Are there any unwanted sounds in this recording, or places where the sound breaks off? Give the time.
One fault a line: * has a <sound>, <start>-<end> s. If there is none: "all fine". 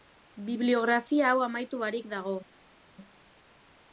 all fine